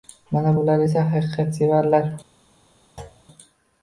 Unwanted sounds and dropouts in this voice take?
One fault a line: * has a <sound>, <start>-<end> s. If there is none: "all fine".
* has a thud, 3.0-3.2 s